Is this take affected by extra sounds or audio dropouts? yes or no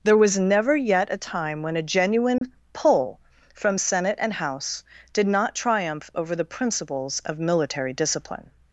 yes